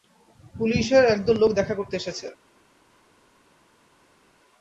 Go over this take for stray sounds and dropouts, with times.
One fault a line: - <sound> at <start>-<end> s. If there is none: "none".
none